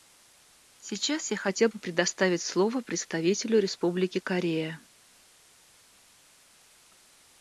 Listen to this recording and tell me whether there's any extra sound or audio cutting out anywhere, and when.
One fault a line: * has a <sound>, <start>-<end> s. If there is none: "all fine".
all fine